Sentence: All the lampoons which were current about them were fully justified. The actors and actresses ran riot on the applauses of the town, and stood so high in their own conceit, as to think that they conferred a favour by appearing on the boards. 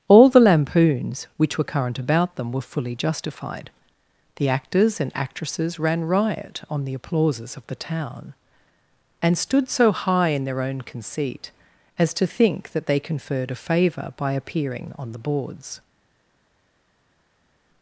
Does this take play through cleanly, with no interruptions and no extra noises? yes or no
yes